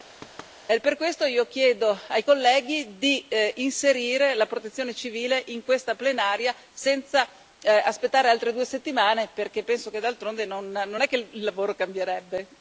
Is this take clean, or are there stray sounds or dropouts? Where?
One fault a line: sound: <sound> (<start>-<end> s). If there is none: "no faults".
sound: thud (0.2-0.6 s)